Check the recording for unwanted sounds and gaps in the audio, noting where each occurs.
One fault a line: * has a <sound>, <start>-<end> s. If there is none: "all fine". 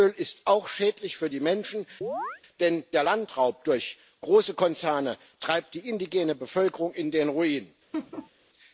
* has a chirp, 2.0-2.4 s
* has a laugh, 7.9-8.3 s